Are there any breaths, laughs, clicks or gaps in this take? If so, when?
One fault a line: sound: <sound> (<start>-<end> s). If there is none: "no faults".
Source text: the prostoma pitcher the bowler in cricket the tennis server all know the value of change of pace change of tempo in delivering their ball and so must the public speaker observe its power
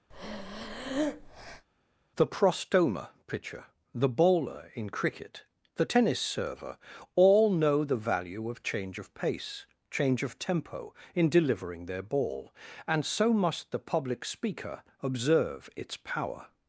sound: breath (0.1-1.7 s)